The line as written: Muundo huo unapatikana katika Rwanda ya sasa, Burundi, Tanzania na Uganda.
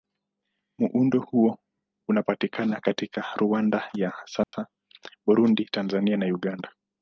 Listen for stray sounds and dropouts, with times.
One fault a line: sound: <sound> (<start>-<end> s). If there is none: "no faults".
sound: dropout (4.4-4.5 s)